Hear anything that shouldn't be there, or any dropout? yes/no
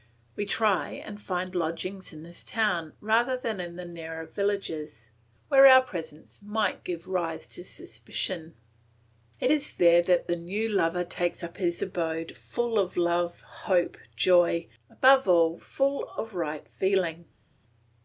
no